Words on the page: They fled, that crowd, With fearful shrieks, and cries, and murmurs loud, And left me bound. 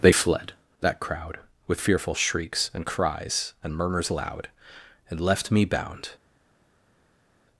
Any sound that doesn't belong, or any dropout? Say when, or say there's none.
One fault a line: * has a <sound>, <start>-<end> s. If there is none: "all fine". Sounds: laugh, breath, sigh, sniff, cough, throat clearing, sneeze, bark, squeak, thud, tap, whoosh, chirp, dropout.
all fine